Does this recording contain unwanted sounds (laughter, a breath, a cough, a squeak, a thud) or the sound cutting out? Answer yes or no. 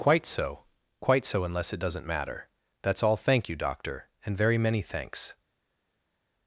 no